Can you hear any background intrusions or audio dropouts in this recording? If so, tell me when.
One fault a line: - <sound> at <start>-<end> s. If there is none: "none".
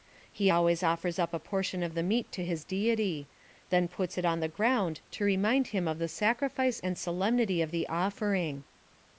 none